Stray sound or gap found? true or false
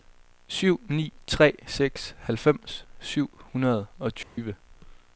true